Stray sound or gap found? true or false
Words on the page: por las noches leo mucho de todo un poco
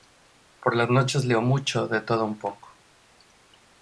false